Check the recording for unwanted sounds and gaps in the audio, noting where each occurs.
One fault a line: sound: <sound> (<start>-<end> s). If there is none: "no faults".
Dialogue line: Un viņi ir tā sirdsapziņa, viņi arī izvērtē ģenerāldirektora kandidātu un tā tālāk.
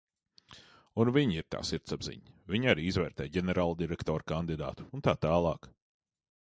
no faults